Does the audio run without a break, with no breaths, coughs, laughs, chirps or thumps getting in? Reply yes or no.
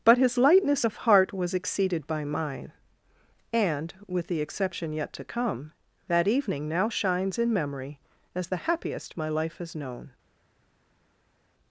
yes